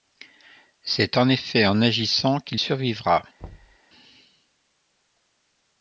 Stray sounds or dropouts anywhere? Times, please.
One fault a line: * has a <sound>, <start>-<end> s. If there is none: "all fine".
* has a thud, 3.4-3.8 s